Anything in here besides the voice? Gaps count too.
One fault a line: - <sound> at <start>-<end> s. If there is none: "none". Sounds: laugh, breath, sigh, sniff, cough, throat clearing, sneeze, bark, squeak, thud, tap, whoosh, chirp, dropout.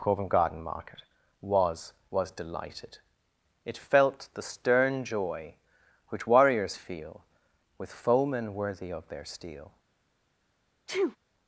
- sneeze at 10.9-11.2 s